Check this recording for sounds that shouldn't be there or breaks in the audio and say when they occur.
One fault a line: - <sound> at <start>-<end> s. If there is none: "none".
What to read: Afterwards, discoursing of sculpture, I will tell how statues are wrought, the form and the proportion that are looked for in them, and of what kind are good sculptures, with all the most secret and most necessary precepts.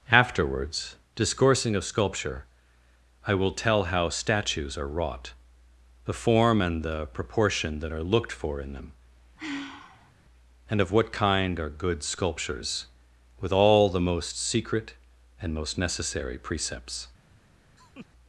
- sigh at 9.4-10.1 s
- laugh at 17.8-18.1 s